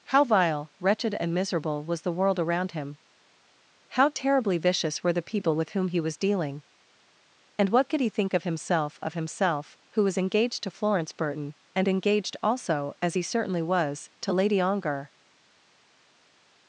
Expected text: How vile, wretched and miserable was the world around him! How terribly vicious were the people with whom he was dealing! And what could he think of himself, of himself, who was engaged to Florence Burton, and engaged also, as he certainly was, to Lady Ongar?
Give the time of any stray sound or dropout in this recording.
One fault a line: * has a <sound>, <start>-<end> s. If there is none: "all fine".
all fine